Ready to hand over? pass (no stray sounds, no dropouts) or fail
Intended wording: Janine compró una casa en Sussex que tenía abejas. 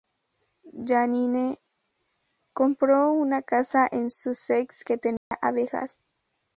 fail